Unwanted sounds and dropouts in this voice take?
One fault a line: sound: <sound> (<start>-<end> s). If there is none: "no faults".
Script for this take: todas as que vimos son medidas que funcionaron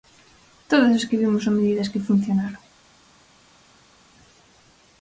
no faults